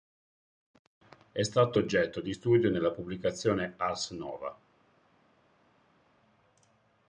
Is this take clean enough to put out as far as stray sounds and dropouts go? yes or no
yes